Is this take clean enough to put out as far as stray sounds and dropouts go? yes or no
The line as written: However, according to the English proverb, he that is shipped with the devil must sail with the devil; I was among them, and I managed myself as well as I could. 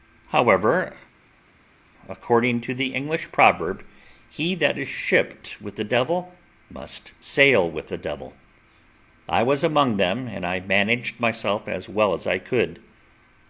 yes